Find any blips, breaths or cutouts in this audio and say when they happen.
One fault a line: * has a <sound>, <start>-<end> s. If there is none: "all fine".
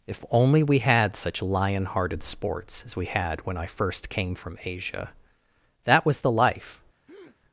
* has a breath, 7.1-7.4 s